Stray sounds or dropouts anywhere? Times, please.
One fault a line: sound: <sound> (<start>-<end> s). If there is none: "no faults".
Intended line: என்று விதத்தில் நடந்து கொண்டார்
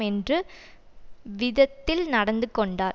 no faults